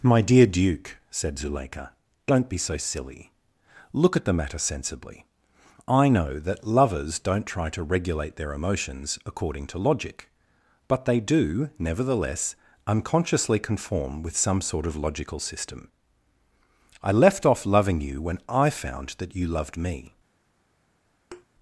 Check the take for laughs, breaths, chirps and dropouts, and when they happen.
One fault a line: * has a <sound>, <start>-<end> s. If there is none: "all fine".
* has a thud, 21.3-21.5 s